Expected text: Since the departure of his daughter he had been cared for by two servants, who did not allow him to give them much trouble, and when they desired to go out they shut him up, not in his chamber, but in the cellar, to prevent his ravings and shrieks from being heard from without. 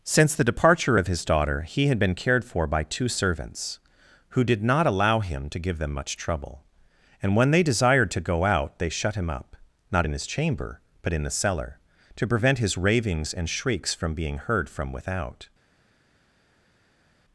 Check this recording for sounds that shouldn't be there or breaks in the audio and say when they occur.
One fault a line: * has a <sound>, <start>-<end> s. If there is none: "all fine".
all fine